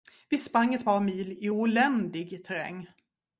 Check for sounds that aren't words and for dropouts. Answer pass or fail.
pass